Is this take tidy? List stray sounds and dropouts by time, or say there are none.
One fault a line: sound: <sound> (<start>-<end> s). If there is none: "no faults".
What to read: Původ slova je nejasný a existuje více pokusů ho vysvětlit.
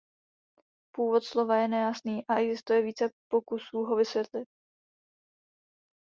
no faults